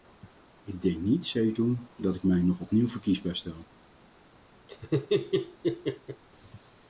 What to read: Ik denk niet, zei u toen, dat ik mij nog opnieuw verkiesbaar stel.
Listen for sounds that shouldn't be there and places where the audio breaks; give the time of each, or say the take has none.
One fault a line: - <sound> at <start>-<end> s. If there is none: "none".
- laugh at 4.7-6.2 s